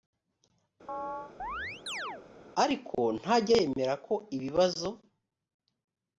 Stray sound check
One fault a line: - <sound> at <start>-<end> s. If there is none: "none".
- chirp at 0.9-2.2 s